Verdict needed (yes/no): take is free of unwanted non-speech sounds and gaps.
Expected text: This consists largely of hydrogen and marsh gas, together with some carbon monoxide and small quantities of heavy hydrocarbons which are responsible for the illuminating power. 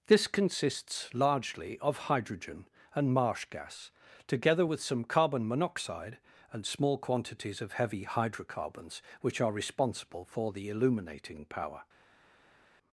yes